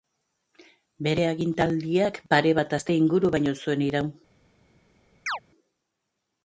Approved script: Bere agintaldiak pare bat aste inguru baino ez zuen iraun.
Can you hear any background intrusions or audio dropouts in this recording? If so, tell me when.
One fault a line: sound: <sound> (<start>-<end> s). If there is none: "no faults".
sound: chirp (5.3-5.4 s)